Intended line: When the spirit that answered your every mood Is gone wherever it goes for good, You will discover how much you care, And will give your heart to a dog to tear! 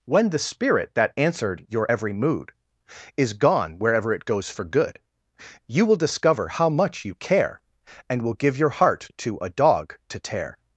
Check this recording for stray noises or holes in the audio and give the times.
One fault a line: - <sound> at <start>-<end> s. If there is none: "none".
none